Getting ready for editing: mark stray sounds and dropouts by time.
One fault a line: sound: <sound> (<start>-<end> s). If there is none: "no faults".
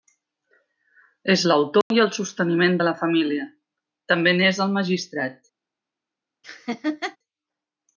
sound: dropout (1.8-1.9 s)
sound: laugh (6.4-7.2 s)